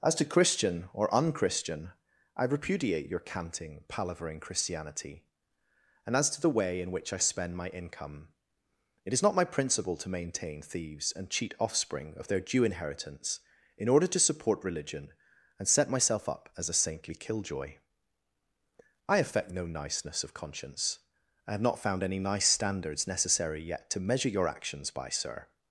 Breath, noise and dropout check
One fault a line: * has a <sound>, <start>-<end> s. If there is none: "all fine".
all fine